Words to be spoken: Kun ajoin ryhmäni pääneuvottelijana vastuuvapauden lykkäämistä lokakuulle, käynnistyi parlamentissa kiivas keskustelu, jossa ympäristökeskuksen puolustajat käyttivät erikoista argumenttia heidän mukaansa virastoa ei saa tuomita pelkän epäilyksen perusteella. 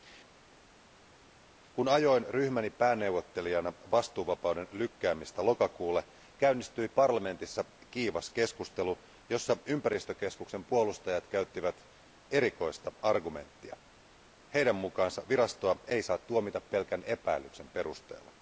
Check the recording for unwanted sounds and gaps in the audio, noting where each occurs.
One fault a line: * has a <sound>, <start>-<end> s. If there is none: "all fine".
all fine